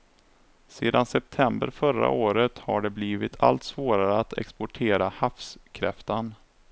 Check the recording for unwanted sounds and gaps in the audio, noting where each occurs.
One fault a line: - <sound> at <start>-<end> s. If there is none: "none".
none